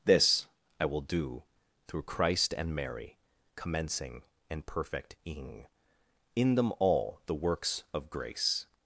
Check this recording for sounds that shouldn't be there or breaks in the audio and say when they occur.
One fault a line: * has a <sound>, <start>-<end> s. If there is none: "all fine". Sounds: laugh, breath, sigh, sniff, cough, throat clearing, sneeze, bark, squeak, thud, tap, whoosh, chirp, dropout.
all fine